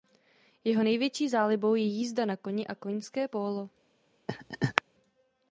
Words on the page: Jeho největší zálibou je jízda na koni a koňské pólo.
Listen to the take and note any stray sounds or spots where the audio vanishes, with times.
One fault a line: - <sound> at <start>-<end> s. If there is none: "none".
- laugh at 4.3-4.8 s